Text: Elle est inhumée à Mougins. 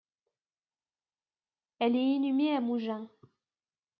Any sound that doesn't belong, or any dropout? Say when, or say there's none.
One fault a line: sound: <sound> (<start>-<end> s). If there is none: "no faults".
no faults